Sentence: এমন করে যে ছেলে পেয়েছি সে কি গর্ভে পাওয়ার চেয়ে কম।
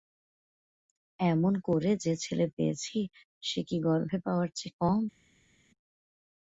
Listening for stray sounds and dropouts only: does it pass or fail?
pass